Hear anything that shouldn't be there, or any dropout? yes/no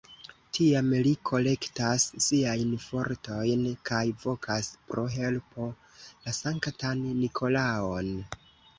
no